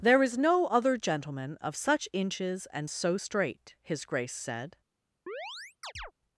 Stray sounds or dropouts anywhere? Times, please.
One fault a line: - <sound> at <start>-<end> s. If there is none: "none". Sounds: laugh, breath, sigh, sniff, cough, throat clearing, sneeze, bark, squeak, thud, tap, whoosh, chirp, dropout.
- chirp at 5.3-6.1 s